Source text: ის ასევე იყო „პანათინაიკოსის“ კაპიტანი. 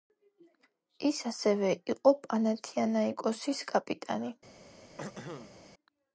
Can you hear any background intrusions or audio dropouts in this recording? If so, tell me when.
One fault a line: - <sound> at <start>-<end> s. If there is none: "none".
- throat clearing at 5.0-5.5 s